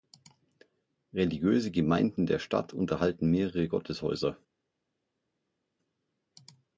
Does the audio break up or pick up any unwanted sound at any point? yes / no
no